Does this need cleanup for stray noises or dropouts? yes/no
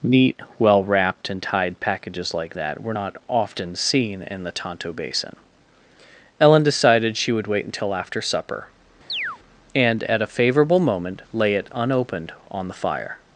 yes